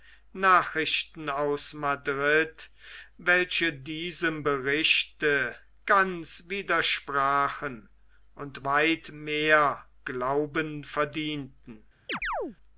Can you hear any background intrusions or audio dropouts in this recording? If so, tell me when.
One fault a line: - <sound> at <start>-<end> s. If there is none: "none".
- chirp at 12.1-12.6 s